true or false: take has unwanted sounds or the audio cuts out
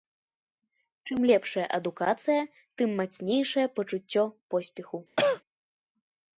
true